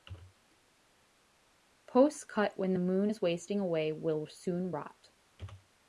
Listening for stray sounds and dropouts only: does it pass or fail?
pass